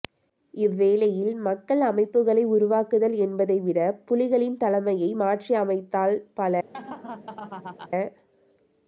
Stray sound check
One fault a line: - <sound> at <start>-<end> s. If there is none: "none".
- laugh at 6.7-7.9 s